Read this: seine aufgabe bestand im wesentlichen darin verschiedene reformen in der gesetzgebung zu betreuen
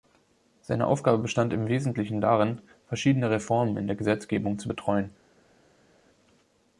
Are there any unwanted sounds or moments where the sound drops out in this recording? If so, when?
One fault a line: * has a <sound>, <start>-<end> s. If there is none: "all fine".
all fine